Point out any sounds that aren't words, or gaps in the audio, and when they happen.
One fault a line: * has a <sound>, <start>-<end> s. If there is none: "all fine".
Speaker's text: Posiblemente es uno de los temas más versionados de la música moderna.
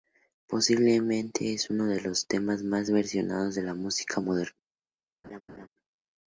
* has a laugh, 5.2-5.7 s